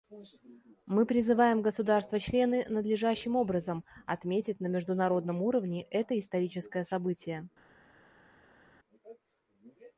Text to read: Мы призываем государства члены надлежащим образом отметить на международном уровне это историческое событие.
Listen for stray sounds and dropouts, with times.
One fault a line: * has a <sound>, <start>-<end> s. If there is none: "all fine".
all fine